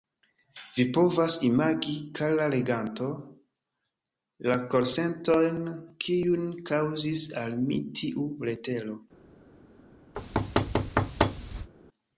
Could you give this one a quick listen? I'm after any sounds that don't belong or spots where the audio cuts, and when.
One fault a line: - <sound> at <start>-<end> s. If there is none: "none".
- thud at 10.1-11.7 s